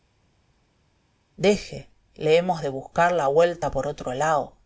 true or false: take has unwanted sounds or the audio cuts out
false